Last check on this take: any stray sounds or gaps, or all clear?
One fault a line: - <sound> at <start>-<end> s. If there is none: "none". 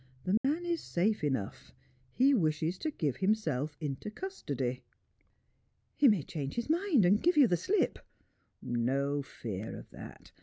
- dropout at 0.4-0.4 s